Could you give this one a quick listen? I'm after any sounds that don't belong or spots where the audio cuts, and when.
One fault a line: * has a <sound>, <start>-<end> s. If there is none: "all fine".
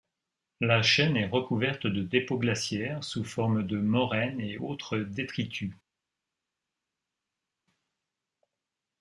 all fine